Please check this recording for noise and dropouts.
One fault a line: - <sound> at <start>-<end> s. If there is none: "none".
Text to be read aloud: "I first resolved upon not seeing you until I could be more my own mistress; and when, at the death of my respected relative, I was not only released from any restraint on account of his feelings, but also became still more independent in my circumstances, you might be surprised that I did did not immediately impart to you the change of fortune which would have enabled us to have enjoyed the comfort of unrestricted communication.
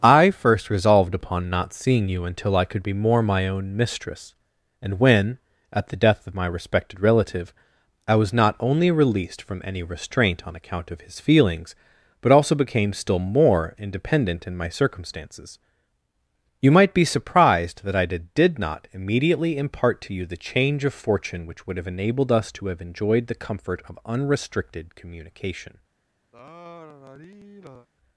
- sigh at 26.3-27.9 s